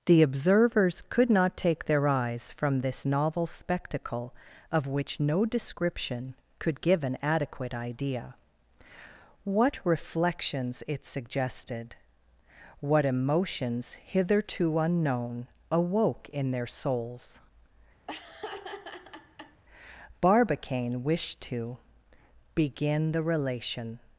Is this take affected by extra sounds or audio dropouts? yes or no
yes